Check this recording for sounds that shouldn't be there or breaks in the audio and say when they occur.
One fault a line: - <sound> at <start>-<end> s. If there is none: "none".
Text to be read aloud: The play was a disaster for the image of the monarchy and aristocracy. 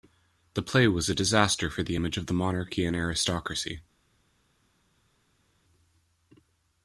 none